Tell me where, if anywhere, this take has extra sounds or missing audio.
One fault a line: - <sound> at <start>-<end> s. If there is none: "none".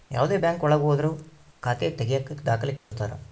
- dropout at 2.8-2.9 s